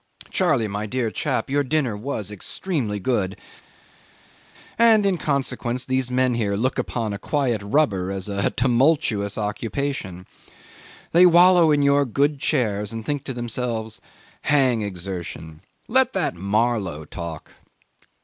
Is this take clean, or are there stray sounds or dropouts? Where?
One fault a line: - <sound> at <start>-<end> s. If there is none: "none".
none